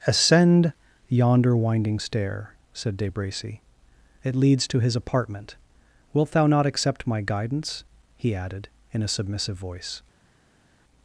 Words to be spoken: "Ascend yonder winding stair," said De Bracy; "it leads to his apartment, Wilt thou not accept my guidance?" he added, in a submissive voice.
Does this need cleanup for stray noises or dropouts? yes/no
no